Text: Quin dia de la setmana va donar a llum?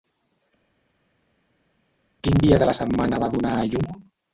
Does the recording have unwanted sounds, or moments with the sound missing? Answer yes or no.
no